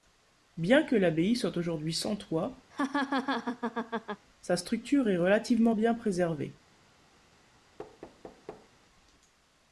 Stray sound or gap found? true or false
true